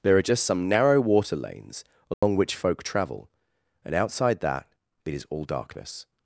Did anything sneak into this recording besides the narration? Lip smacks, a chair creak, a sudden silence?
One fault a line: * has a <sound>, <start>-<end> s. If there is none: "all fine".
* has a dropout, 2.1-2.2 s